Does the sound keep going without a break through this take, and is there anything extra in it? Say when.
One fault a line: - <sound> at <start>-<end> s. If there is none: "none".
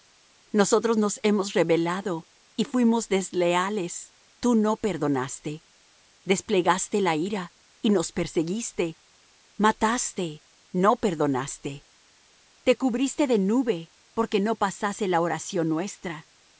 none